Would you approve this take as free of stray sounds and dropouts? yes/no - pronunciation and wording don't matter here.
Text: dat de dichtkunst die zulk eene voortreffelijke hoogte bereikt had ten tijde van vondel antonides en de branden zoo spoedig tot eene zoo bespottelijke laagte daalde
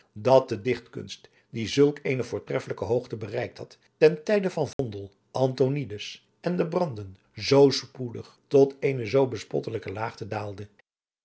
no